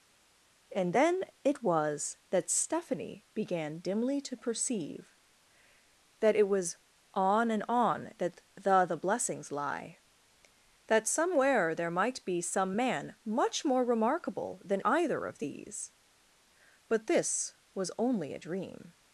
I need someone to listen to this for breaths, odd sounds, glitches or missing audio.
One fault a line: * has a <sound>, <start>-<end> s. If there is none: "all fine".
all fine